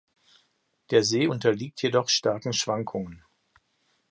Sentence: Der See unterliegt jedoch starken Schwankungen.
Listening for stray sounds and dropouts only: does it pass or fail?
pass